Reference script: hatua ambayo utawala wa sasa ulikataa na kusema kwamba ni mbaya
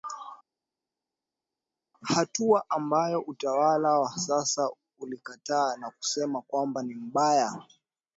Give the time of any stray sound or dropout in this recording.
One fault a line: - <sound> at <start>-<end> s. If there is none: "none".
none